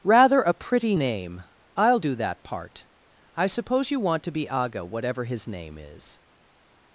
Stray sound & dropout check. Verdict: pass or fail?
pass